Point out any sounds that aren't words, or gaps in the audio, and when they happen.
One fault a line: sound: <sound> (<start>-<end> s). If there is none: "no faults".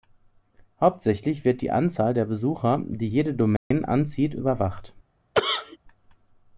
sound: dropout (3.6-3.7 s)
sound: cough (5.3-5.8 s)